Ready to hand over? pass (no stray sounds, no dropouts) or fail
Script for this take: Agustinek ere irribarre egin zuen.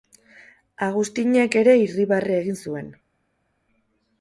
pass